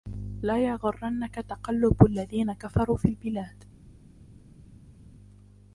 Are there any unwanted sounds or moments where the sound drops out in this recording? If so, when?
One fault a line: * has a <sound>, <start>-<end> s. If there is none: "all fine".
all fine